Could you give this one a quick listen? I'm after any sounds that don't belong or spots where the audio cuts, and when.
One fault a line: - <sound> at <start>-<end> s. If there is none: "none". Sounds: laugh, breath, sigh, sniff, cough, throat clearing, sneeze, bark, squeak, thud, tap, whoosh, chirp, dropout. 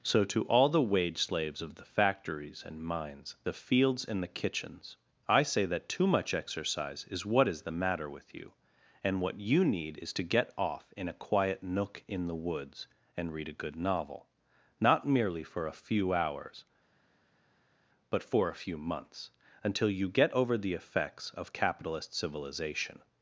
none